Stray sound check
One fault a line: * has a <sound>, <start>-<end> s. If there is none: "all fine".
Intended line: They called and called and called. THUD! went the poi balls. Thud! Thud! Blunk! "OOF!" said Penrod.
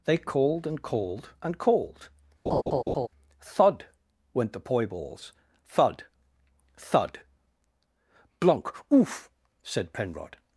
* has a laugh, 2.5-3.1 s